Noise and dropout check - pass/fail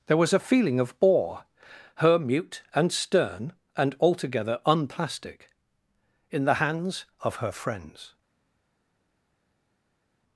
pass